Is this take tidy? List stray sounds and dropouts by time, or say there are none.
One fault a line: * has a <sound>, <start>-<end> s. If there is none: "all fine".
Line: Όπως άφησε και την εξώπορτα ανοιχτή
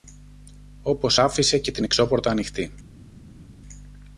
all fine